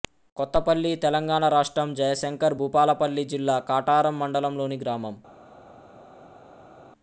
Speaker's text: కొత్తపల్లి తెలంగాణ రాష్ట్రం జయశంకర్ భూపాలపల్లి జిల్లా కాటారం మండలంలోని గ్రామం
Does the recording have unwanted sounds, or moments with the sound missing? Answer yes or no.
no